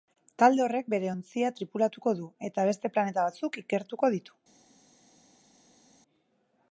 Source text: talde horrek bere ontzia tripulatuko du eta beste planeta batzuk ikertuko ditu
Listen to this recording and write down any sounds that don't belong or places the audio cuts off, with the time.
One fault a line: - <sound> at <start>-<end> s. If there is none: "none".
none